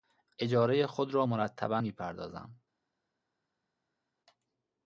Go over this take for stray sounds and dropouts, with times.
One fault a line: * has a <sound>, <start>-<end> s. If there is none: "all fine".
all fine